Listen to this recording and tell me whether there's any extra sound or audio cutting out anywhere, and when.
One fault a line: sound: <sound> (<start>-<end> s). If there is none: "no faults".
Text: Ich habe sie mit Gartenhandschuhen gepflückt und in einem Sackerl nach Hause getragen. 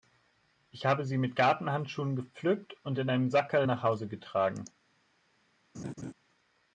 sound: laugh (5.7-6.1 s)